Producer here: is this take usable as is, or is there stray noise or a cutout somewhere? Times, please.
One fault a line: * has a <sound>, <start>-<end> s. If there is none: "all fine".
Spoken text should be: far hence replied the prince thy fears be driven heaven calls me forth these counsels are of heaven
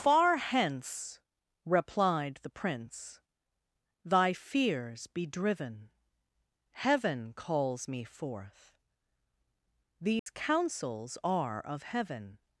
* has a dropout, 10.2-10.3 s